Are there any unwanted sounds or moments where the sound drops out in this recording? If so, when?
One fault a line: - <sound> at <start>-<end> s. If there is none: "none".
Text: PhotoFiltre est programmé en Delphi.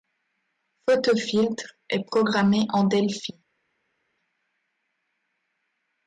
none